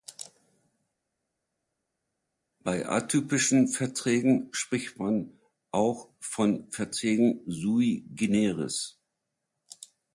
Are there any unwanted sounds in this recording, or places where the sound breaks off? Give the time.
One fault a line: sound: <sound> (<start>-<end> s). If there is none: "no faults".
no faults